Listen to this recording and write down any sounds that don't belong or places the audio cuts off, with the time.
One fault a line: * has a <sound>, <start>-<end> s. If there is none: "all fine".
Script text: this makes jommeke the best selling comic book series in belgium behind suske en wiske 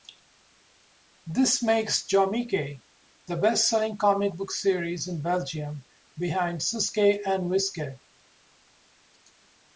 all fine